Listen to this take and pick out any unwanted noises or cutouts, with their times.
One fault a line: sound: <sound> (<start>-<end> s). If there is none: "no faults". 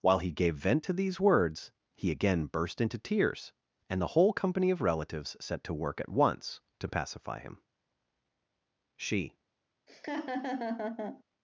sound: laugh (9.9-11.2 s)